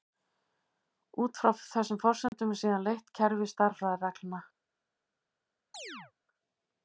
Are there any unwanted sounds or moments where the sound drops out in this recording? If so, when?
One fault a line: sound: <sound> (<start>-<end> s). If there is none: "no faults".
sound: dropout (2.3-2.3 s)
sound: chirp (5.7-6.1 s)